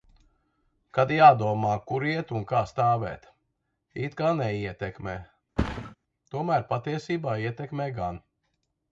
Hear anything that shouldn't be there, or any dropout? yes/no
yes